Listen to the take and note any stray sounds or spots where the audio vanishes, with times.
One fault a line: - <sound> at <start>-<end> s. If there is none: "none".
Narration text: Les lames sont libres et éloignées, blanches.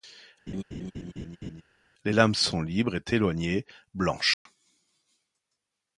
- laugh at 0.5-1.6 s
- dropout at 4.3-4.5 s